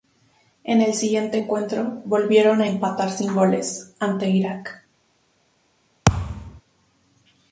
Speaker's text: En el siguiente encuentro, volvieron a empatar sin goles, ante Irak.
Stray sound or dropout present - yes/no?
yes